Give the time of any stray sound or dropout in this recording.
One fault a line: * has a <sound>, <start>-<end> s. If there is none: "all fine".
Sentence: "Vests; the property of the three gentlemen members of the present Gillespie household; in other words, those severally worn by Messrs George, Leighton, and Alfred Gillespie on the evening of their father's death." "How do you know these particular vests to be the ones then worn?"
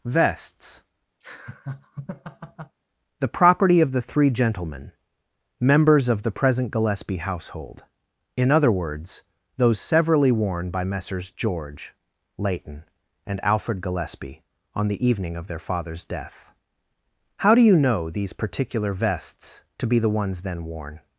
* has a laugh, 1.2-2.8 s